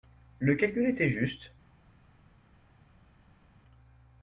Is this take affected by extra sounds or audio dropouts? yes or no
no